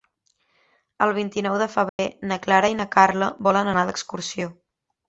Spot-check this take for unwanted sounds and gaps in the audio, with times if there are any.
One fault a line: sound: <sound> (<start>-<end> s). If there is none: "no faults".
sound: dropout (1.9-2.0 s)